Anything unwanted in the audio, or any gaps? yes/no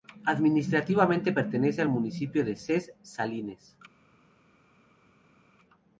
no